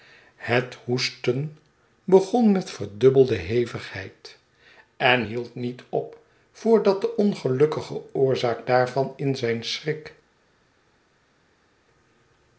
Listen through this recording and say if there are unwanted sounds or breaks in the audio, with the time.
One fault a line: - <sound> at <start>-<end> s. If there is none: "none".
none